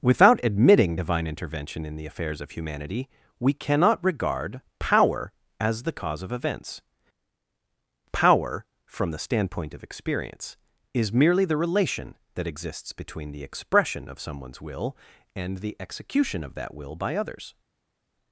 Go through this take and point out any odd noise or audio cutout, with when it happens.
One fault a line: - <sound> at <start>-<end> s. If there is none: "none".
none